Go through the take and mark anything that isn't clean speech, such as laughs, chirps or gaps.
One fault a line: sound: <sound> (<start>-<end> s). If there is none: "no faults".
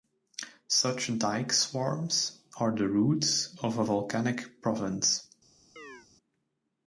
sound: chirp (5.8-6.1 s)